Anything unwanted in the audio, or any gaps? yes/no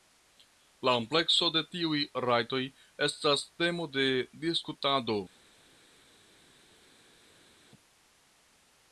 no